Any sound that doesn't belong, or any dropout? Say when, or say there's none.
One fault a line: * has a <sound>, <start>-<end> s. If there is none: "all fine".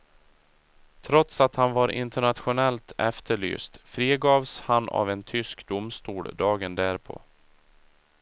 all fine